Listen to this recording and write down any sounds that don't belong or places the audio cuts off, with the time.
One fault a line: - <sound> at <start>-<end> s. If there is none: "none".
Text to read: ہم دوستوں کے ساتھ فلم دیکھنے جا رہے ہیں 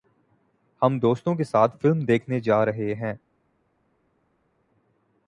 none